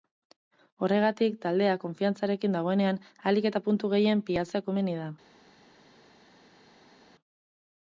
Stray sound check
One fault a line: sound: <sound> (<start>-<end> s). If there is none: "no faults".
no faults